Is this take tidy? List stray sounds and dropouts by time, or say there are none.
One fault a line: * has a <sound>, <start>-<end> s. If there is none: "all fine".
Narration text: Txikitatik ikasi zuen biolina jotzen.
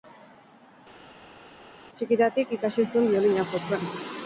all fine